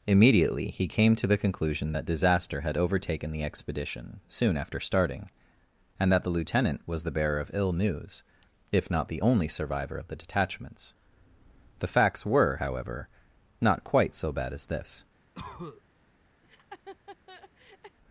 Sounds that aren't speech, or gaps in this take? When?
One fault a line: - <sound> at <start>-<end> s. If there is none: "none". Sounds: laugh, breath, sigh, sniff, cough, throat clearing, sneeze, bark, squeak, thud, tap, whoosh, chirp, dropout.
- cough at 15.3-15.8 s
- laugh at 16.4-18.0 s